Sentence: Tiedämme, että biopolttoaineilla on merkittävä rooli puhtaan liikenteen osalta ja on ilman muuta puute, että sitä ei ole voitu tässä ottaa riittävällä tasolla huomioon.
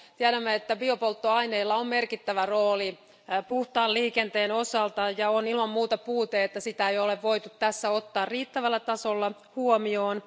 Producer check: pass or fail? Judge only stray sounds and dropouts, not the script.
pass